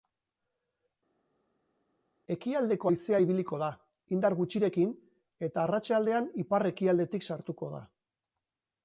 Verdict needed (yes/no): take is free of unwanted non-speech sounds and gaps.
yes